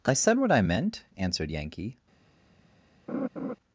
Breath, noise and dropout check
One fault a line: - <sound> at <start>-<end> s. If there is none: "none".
- laugh at 3.1-3.6 s